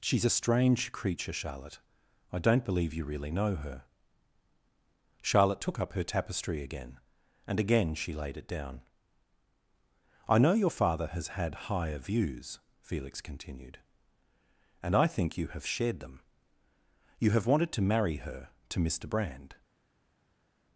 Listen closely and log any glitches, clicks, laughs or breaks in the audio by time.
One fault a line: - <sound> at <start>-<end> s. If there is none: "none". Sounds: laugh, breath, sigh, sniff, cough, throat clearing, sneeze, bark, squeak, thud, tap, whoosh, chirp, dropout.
none